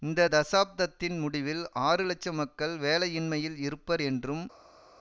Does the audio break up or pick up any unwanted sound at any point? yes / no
no